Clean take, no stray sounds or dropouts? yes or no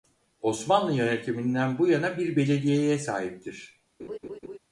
no